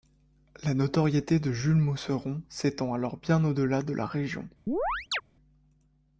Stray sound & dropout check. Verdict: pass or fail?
fail